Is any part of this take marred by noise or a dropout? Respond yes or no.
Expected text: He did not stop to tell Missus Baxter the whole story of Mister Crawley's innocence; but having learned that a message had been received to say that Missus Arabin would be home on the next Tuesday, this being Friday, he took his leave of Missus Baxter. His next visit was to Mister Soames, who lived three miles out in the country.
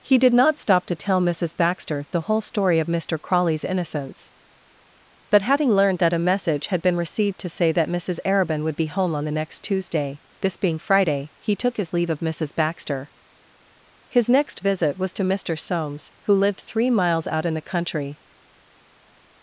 no